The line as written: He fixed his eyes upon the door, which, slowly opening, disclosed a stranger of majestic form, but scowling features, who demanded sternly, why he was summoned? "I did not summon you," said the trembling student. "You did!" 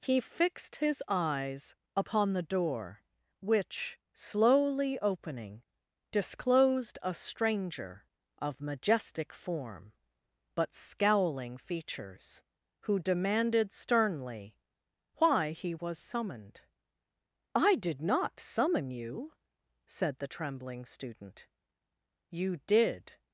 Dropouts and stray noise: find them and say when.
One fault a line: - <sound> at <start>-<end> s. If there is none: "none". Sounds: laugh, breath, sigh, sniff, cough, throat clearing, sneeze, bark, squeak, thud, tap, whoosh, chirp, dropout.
none